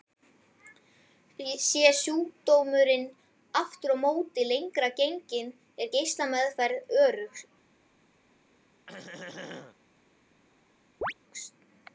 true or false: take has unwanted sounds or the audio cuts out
true